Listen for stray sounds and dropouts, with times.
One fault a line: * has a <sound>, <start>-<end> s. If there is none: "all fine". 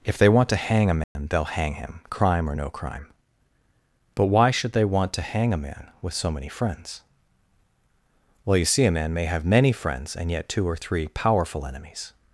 * has a dropout, 1.0-1.2 s